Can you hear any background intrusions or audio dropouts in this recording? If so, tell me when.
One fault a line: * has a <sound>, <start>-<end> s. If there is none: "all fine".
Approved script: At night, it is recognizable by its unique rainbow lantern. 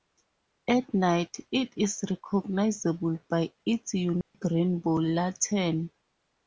* has a dropout, 4.2-4.3 s